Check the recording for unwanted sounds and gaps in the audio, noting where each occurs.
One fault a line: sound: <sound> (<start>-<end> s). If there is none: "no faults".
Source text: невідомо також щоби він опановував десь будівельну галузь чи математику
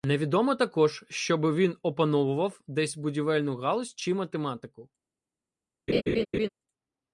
sound: laugh (5.9-6.5 s)